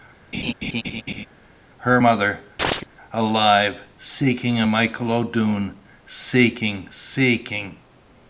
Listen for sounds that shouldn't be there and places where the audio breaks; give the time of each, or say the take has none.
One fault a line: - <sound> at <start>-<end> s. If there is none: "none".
- laugh at 0.3-1.3 s
- chirp at 2.6-2.9 s